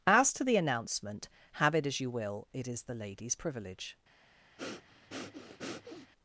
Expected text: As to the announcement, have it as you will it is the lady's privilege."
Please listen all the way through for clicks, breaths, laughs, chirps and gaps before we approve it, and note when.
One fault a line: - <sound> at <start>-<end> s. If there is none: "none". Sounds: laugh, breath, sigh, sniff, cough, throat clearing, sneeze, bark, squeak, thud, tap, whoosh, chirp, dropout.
- breath at 4.6-6.1 s